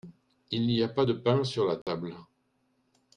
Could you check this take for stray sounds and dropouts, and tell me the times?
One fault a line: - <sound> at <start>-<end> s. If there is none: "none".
- dropout at 1.8-1.9 s